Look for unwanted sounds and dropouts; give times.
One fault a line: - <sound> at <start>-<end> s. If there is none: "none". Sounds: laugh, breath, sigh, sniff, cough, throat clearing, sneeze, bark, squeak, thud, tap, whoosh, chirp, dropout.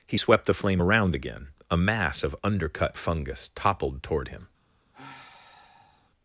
- sigh at 4.9-6.1 s